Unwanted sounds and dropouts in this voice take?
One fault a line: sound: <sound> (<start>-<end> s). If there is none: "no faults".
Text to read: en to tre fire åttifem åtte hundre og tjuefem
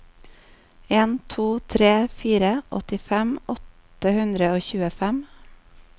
no faults